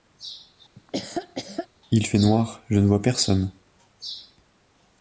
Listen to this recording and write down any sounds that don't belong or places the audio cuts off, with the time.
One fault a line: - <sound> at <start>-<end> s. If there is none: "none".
- laugh at 0.8-1.7 s